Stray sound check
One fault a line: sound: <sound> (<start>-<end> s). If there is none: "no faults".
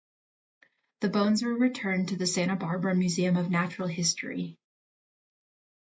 no faults